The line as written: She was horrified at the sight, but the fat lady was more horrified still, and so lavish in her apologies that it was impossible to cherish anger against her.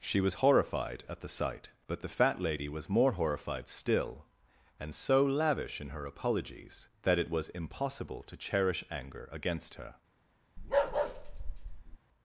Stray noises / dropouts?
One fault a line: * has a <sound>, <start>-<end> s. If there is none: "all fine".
* has a bark, 10.6-12.0 s